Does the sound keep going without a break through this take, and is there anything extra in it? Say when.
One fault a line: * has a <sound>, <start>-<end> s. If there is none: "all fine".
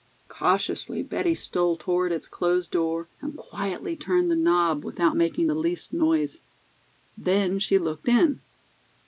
all fine